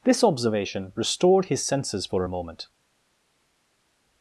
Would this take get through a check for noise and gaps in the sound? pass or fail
pass